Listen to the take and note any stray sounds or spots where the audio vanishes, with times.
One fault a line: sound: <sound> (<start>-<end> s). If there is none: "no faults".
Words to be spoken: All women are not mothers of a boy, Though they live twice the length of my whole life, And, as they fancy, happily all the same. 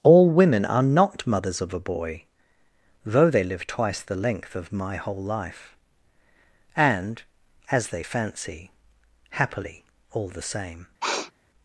sound: sniff (11.0-11.3 s)